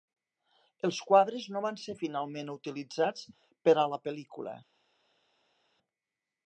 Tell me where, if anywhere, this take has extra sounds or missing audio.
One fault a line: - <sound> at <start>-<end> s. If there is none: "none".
none